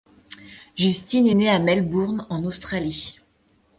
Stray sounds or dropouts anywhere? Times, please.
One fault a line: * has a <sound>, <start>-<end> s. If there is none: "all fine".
all fine